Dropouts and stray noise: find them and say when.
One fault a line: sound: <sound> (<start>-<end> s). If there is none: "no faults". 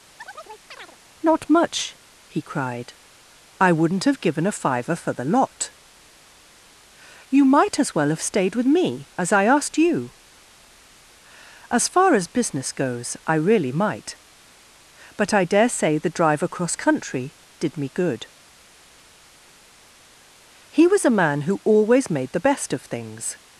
sound: chirp (0.2-1.0 s)